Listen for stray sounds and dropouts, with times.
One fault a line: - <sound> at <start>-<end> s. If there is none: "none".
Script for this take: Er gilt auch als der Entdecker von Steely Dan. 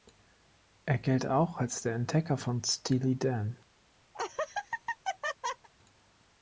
- laugh at 4.1-5.7 s